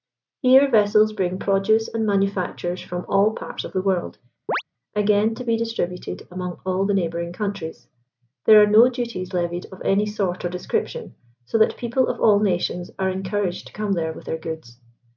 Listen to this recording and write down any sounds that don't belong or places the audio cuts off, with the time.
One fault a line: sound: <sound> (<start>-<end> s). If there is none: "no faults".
sound: chirp (4.5-4.6 s)